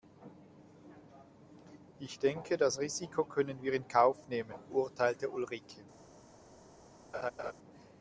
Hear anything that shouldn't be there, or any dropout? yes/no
yes